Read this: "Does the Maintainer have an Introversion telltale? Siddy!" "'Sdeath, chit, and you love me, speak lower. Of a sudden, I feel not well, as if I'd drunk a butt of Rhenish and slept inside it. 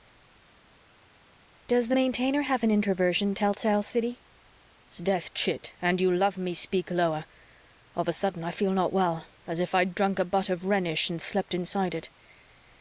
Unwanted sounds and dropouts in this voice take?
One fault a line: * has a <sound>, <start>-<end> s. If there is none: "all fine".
all fine